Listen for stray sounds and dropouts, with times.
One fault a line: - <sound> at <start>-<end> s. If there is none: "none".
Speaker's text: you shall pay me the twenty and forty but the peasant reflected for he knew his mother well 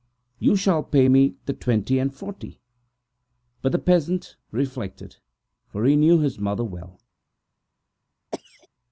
- cough at 8.3-8.7 s